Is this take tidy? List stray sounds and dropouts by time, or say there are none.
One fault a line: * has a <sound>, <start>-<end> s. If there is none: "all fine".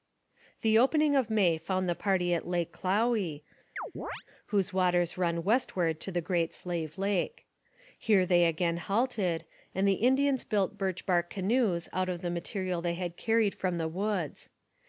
* has a chirp, 3.8-4.2 s